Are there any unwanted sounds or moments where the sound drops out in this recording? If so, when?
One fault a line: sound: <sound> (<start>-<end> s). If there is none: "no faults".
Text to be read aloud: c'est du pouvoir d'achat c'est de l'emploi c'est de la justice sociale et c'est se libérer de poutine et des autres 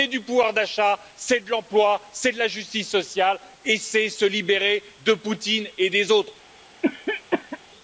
sound: cough (6.8-7.6 s)